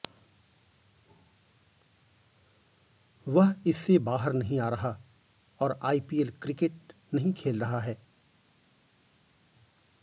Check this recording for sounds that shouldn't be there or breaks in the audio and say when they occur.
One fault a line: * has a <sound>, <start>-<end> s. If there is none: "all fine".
all fine